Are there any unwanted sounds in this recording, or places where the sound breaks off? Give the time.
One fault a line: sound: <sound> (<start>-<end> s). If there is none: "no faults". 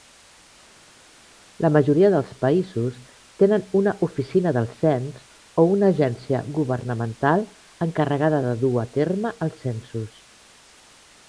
no faults